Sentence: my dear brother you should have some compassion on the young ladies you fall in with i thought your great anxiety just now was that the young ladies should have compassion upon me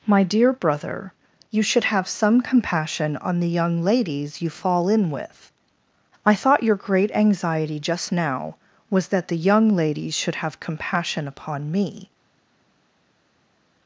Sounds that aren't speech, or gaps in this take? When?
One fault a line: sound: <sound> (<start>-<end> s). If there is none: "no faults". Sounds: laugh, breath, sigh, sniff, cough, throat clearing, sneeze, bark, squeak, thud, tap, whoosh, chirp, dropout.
no faults